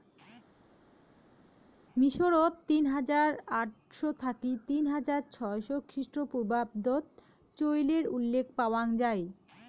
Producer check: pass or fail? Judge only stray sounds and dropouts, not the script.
pass